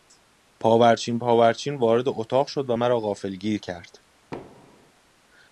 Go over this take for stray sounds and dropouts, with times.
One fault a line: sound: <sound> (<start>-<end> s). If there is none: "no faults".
sound: thud (4.3-4.9 s)